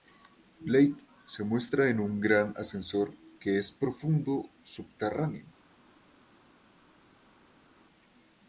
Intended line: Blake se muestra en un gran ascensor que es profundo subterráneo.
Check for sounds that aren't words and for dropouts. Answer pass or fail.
pass